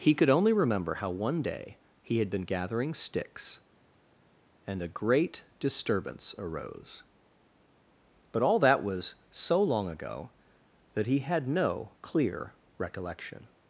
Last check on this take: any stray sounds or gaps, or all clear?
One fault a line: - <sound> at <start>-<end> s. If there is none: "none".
none